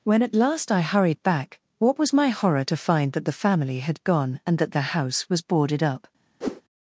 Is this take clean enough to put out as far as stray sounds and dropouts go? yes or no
no